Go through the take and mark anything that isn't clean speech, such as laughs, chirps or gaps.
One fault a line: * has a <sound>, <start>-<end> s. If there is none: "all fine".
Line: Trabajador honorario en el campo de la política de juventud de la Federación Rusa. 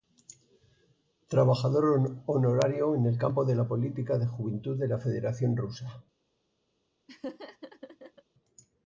* has a laugh, 7.1-8.2 s